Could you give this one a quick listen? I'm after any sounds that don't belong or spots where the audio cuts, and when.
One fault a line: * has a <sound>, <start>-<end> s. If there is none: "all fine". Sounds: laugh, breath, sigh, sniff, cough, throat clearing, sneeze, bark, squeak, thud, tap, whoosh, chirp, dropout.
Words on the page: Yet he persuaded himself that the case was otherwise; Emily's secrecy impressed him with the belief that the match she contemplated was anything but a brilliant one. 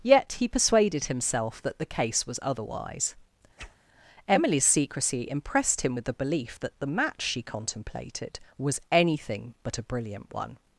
* has a whoosh, 3.6-3.8 s